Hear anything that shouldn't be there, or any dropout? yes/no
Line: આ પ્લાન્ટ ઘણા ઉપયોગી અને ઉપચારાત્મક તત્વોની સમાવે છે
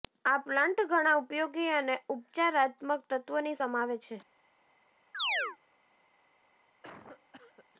yes